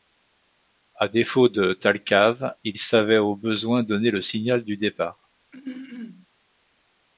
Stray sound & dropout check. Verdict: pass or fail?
fail